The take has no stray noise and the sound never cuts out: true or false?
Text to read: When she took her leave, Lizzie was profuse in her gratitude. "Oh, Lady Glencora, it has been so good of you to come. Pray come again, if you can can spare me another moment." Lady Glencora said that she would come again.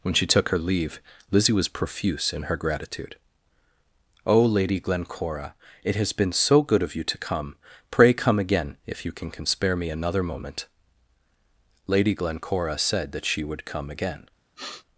false